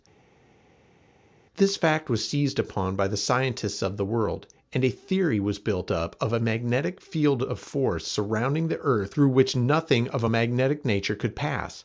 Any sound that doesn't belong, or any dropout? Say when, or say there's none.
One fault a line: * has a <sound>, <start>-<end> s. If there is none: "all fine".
all fine